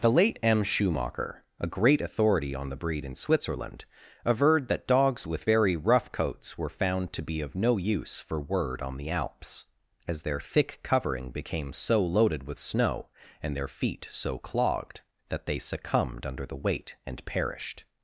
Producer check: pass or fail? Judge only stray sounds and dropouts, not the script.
pass